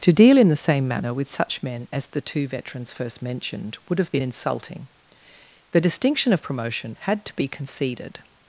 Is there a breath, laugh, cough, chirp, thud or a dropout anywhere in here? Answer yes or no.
no